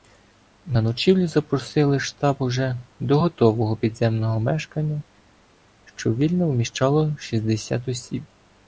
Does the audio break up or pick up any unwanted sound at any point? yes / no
no